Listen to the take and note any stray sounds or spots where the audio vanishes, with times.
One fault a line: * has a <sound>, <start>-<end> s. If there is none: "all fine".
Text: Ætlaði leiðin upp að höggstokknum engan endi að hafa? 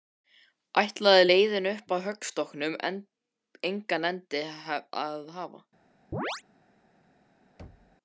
* has a chirp, 6.1-6.4 s
* has a thud, 7.6-8.0 s